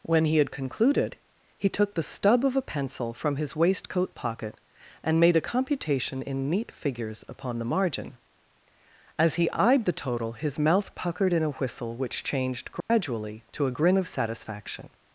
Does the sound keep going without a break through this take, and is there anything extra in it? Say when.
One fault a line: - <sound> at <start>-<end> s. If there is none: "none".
- dropout at 12.8-12.9 s